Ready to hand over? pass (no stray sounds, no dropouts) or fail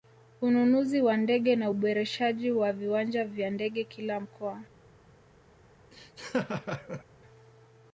fail